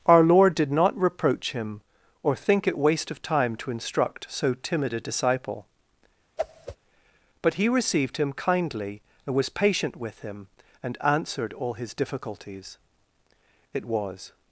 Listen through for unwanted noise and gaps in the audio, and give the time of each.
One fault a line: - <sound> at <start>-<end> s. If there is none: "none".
- whoosh at 6.4-6.8 s